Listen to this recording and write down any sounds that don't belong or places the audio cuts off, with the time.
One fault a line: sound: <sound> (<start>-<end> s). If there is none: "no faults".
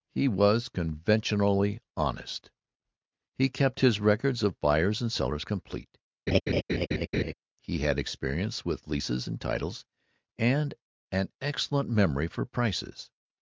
sound: laugh (6.3-7.3 s)